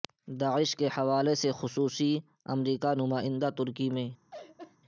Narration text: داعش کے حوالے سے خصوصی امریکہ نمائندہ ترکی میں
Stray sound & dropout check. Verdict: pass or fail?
fail